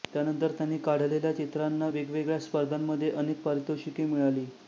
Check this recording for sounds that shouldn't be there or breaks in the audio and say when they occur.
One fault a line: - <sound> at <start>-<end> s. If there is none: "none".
none